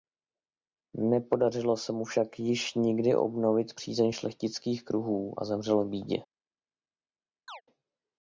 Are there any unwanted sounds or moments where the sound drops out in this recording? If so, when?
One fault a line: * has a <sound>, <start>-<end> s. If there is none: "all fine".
* has a chirp, 7.5-7.6 s